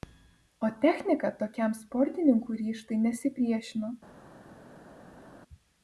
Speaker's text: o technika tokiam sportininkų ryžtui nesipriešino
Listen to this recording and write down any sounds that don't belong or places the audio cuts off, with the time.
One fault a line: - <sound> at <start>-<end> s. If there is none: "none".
none